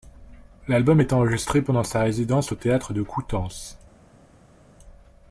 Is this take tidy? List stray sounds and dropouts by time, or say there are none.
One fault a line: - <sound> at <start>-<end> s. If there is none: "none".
none